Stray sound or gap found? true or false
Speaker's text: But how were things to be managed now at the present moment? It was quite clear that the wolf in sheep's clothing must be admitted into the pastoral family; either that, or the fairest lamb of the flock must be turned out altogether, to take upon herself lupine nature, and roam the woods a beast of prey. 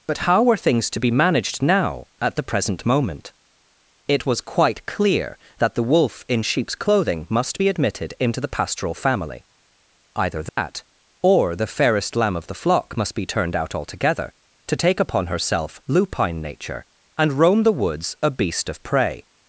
true